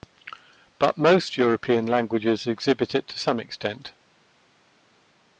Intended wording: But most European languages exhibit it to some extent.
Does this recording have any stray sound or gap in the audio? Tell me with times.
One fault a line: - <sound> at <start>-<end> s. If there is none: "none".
none